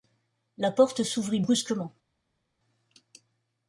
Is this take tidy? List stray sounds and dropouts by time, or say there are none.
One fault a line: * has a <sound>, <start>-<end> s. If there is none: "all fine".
all fine